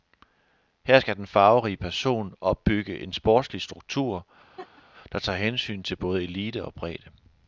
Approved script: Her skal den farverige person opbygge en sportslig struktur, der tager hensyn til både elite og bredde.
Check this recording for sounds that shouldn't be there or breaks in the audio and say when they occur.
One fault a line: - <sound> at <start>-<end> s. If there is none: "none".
- laugh at 4.6-4.8 s